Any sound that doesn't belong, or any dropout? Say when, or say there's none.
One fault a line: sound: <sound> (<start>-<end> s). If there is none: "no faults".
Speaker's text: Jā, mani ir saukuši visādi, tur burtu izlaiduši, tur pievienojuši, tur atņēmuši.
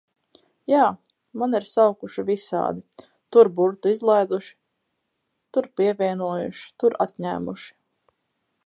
no faults